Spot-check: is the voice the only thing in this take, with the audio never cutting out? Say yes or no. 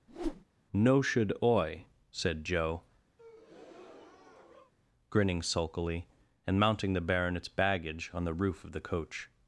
no